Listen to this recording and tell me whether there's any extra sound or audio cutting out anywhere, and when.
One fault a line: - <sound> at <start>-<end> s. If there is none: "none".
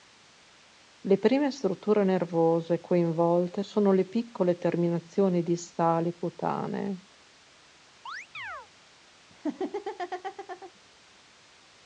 - chirp at 8.1-8.7 s
- laugh at 9.3-10.7 s